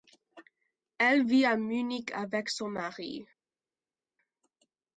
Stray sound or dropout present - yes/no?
no